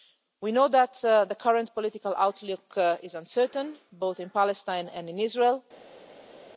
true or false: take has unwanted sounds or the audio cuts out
false